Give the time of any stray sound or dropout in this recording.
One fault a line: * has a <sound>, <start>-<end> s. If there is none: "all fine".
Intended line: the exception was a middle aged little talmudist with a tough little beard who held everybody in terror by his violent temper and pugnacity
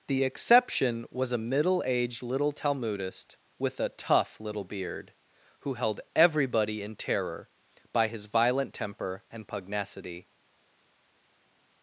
all fine